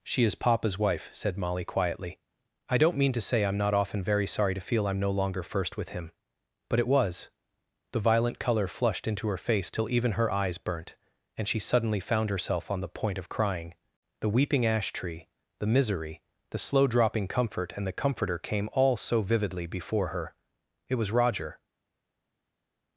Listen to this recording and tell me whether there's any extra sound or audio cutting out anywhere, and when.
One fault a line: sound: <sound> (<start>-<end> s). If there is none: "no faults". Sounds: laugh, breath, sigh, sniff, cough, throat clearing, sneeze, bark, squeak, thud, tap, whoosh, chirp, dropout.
no faults